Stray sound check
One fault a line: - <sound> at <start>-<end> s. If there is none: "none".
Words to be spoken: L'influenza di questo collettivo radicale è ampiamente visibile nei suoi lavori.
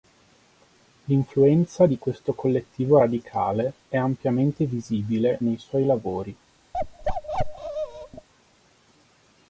- bark at 6.7-8.3 s